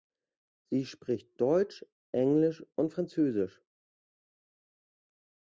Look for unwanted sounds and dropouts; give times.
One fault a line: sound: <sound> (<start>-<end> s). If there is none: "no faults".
no faults